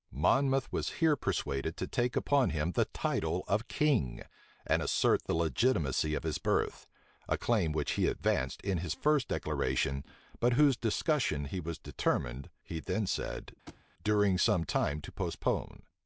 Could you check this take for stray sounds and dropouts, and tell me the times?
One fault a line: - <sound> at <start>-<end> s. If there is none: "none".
- thud at 13.7-13.9 s